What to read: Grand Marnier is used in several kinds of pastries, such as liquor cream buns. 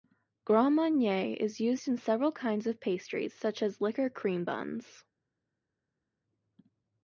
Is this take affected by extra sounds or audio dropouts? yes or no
no